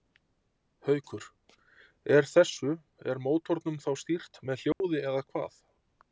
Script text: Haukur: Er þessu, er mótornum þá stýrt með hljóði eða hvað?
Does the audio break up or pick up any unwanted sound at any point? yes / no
yes